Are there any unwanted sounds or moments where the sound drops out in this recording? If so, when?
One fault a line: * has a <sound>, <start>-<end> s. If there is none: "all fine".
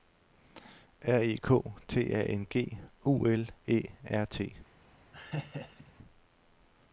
* has a laugh, 5.1-5.9 s